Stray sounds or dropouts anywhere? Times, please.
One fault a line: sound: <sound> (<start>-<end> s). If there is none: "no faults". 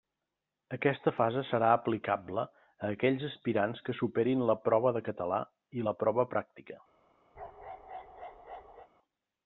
sound: bark (7.3-8.9 s)